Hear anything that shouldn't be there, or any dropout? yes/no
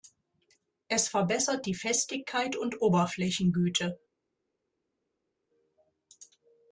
no